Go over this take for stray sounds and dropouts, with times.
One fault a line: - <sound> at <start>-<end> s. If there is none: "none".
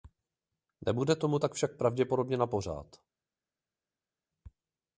none